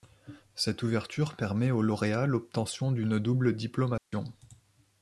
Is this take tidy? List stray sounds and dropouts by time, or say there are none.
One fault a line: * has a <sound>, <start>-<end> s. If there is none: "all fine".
* has a dropout, 4.0-4.1 s